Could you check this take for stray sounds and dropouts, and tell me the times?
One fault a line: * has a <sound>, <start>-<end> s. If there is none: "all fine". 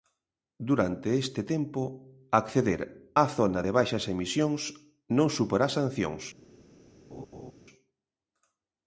* has a laugh, 7.1-7.5 s